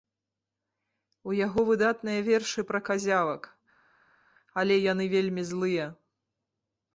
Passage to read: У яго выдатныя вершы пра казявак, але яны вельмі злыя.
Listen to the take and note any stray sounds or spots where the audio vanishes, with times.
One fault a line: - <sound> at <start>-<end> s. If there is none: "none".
none